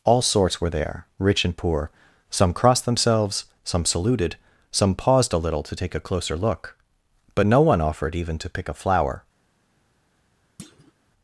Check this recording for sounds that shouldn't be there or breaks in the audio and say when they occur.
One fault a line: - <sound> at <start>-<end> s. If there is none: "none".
- thud at 10.6-10.9 s